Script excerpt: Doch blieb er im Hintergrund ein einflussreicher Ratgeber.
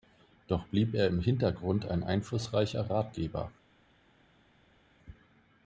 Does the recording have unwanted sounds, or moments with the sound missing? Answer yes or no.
no